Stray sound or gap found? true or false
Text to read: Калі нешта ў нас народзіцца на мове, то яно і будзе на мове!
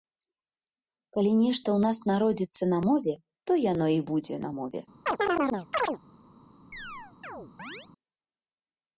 true